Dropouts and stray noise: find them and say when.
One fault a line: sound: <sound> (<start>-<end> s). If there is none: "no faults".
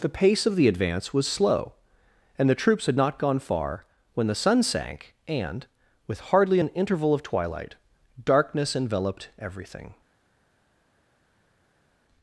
no faults